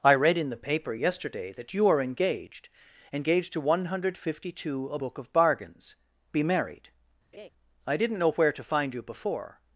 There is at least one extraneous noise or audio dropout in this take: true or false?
true